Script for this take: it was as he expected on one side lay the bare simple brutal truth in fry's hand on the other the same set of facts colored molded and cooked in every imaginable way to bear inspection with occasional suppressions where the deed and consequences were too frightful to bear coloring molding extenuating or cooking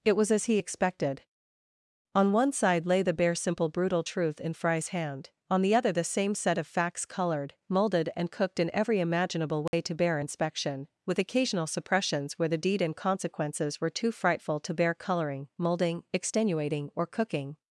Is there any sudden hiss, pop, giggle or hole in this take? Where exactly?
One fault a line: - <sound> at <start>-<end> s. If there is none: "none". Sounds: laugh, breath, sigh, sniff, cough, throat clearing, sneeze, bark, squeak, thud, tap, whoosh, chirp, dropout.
- dropout at 9.7-9.7 s